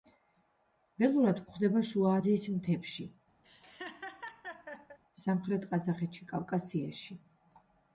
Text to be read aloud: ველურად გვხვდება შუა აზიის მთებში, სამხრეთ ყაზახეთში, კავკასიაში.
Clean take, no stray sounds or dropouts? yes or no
no